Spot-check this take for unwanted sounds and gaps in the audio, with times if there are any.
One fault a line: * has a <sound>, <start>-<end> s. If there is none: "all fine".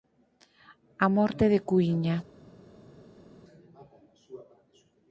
all fine